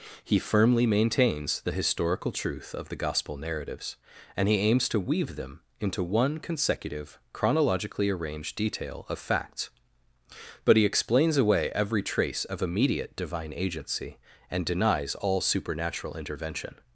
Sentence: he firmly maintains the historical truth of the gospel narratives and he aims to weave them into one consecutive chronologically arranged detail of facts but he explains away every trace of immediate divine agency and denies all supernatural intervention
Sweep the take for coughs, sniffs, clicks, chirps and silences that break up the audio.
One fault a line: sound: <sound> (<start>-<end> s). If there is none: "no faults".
no faults